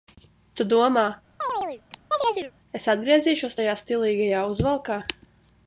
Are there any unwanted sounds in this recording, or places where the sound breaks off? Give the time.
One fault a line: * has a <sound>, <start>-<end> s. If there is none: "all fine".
* has a chirp, 1.4-2.5 s